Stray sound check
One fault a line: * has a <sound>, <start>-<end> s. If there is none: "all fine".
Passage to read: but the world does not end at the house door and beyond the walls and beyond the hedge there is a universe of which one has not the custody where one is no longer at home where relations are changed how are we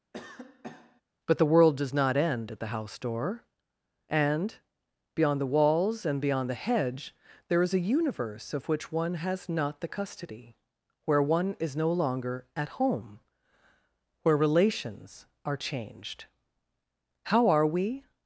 * has a cough, 0.1-1.0 s